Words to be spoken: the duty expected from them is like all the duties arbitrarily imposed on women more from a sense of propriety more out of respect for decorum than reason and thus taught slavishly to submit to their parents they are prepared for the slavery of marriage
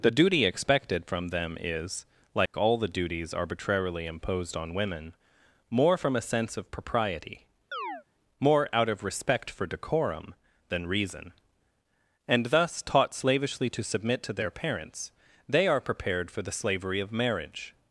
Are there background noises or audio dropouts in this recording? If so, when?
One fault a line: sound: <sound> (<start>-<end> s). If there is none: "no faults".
sound: dropout (2.5-2.5 s)
sound: chirp (7.7-8.0 s)